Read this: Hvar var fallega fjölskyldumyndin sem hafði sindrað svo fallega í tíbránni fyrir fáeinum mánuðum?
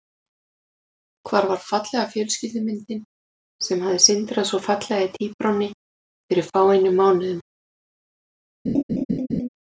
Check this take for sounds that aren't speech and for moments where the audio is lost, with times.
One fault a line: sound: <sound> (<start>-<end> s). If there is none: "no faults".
sound: laugh (8.7-9.5 s)